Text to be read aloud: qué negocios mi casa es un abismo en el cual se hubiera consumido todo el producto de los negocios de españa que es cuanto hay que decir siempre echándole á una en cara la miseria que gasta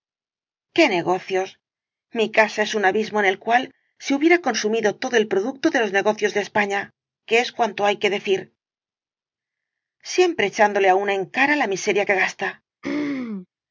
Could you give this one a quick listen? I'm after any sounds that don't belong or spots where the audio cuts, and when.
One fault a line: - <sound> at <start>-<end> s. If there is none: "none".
- throat clearing at 12.8-13.5 s